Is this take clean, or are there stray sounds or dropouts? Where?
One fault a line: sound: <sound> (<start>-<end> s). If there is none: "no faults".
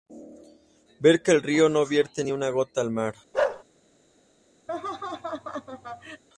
sound: bark (3.3-3.6 s)
sound: laugh (4.7-6.2 s)